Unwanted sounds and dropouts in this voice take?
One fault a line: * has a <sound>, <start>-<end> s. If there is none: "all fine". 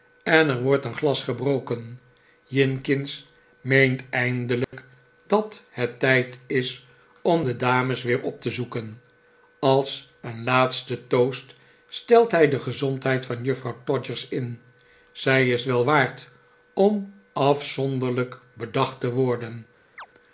* has a dropout, 4.6-4.7 s
* has a chirp, 20.0-20.1 s